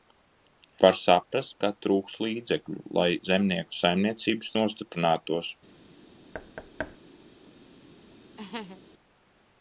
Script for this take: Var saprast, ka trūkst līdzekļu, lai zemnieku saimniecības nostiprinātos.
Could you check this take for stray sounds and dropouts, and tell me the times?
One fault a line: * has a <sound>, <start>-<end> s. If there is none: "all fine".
* has a thud, 6.3-7.0 s
* has a laugh, 8.4-8.8 s